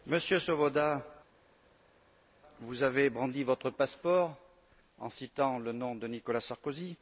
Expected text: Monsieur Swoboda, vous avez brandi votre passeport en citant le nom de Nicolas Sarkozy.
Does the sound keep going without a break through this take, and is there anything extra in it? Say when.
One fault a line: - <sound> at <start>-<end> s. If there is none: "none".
none